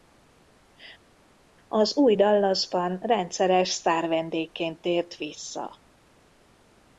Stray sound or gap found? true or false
false